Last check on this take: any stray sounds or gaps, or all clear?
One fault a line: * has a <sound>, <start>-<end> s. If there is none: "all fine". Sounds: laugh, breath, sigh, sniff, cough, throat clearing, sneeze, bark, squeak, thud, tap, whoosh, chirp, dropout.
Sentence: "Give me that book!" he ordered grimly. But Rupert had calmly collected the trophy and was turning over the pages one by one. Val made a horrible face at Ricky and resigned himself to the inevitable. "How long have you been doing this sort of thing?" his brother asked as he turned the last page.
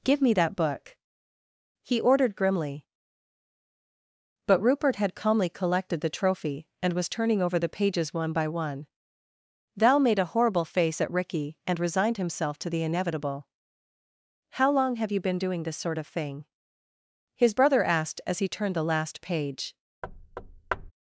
* has a thud, 20.0-20.9 s